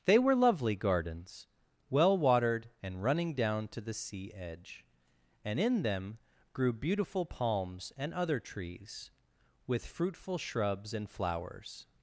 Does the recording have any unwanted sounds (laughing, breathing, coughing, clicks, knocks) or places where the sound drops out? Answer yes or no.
no